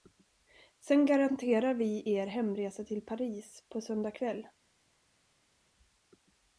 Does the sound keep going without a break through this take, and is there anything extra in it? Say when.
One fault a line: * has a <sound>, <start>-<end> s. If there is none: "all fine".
all fine